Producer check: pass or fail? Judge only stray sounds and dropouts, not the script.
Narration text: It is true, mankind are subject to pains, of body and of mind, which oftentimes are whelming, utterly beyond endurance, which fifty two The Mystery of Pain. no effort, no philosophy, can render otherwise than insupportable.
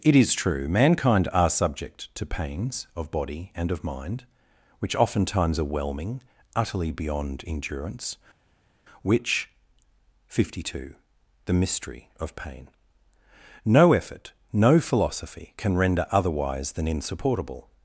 pass